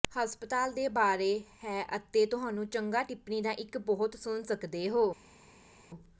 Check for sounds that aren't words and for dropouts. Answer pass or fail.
pass